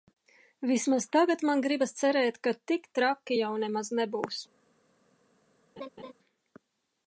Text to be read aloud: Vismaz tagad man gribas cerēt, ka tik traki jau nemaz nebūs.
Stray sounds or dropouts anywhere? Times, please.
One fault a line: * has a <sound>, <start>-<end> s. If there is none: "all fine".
* has a laugh, 5.8-6.1 s